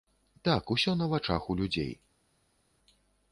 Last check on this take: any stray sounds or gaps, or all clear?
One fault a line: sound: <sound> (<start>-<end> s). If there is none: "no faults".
no faults